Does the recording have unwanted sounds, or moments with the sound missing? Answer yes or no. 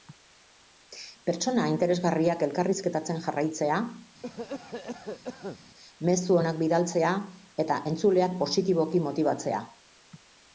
yes